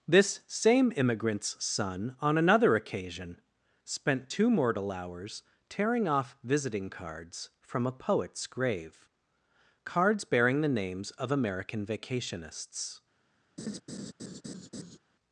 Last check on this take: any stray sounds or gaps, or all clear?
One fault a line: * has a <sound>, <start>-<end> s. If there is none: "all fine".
* has a laugh, 13.6-15.0 s